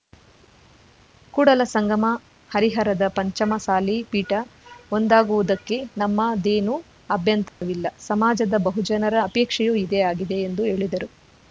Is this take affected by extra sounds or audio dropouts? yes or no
yes